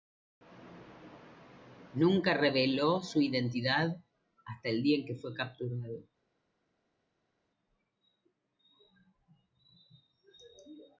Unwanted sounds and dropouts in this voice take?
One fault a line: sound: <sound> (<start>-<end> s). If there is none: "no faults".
no faults